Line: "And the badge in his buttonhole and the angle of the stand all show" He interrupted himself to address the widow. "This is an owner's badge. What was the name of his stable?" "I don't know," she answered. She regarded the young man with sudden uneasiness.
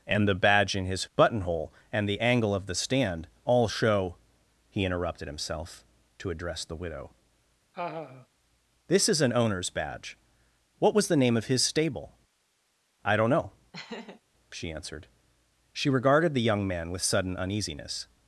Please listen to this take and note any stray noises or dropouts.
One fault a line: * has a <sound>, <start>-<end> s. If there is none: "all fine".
* has a laugh, 7.7-8.3 s
* has a laugh, 13.7-14.2 s